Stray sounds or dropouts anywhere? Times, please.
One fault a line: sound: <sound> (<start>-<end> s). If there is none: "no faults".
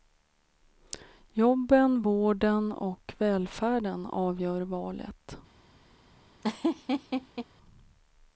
sound: laugh (6.4-7.5 s)